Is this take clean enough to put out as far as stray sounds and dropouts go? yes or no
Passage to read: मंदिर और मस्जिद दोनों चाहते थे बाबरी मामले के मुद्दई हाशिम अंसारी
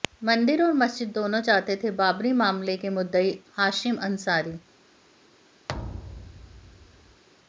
no